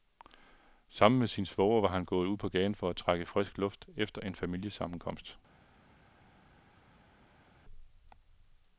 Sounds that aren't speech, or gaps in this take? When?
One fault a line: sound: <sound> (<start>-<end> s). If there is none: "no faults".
no faults